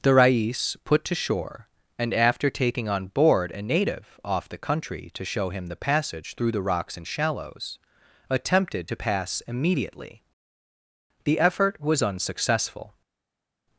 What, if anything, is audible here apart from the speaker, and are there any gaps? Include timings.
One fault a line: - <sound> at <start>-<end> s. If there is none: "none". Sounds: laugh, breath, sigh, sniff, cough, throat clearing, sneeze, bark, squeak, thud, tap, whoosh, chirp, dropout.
none